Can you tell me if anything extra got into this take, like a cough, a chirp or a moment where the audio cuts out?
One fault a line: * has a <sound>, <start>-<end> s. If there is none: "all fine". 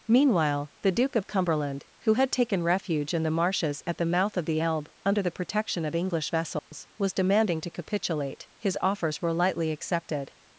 * has a dropout, 6.6-6.7 s